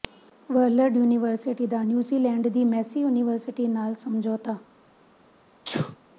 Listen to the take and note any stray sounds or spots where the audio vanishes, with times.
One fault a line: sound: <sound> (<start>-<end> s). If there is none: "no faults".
sound: sneeze (5.6-6.0 s)